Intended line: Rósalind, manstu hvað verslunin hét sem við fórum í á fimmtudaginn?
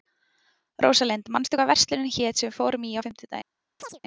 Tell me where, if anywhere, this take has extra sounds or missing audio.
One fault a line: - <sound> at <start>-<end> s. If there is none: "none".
- chirp at 3.8-4.0 s